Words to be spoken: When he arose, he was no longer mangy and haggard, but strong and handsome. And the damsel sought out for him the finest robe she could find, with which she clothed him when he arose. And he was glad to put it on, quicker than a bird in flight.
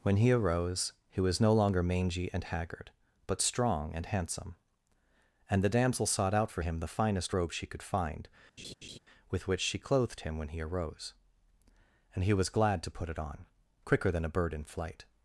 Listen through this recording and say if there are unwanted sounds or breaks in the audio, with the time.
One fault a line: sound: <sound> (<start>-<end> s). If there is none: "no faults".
sound: laugh (8.6-9.0 s)